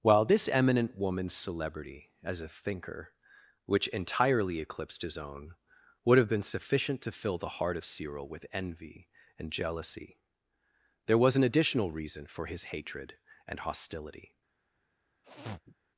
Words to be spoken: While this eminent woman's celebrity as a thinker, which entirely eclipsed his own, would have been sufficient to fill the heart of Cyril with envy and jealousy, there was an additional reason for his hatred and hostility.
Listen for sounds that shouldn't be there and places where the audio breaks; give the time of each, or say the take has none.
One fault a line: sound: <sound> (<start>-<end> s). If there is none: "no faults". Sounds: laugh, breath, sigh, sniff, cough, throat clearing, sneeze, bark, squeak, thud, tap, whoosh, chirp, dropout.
sound: sniff (15.2-15.8 s)